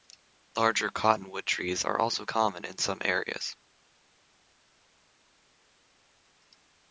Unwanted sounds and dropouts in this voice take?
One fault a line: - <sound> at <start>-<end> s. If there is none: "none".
none